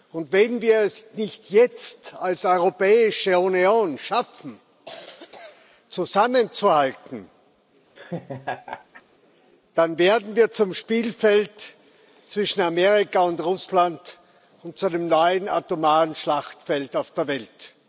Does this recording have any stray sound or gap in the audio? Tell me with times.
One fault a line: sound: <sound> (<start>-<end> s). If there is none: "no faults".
sound: laugh (8.0-9.0 s)